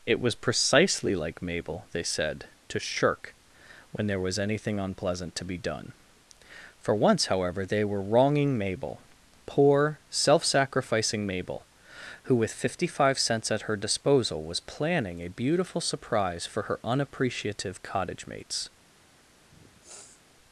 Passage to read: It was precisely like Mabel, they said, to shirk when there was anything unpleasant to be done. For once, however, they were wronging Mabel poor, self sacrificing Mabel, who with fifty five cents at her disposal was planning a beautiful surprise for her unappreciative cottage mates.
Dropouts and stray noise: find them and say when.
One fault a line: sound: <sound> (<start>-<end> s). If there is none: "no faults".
sound: sniff (19.5-20.2 s)